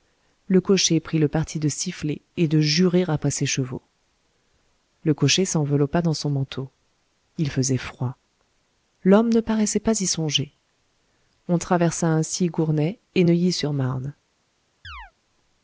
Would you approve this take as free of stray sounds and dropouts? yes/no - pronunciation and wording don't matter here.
no